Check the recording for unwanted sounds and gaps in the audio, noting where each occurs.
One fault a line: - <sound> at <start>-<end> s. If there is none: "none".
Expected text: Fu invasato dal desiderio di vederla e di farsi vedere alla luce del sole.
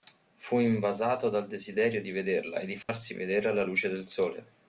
- dropout at 2.8-2.9 s